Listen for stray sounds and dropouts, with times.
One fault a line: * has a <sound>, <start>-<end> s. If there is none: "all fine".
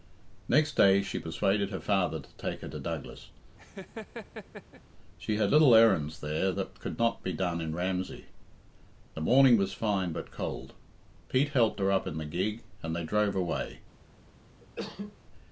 * has a laugh, 3.6-4.8 s
* has a cough, 14.6-15.2 s